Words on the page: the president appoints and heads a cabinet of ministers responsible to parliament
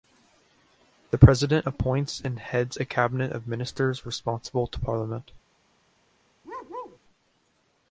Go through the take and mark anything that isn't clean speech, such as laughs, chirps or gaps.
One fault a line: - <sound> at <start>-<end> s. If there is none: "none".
- bark at 6.4-7.0 s